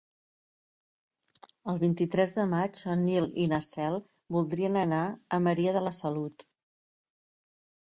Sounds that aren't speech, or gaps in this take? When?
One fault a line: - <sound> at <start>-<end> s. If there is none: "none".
none